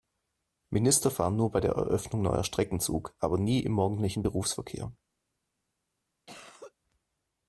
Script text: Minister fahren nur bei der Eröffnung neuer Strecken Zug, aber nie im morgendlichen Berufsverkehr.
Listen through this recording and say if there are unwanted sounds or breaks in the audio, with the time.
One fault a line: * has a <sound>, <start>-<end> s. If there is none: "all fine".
* has a cough, 6.3-6.7 s